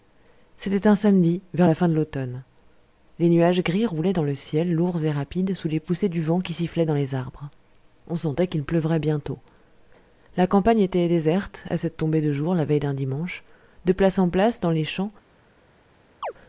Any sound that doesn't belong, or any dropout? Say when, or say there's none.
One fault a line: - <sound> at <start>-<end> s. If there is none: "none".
- chirp at 16.2-16.3 s